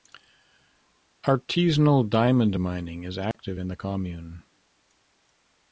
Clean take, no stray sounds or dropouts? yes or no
no